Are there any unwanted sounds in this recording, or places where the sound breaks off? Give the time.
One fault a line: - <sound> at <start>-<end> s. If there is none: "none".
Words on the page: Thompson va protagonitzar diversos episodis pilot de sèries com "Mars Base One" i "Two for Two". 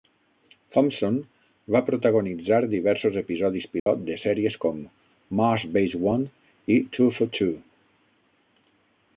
- dropout at 3.8-3.9 s